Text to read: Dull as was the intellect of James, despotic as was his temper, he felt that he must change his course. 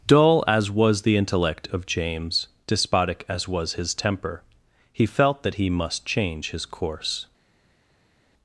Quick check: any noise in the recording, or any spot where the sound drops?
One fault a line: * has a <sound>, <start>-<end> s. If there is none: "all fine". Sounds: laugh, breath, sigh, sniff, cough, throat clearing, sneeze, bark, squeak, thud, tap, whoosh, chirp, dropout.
all fine